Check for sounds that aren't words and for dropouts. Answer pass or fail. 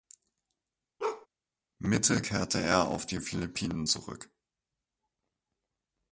fail